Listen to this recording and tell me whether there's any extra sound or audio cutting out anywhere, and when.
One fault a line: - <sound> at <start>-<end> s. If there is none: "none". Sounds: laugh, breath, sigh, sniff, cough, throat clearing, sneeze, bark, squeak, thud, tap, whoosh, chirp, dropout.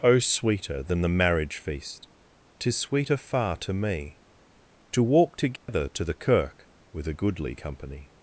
- dropout at 5.6-5.7 s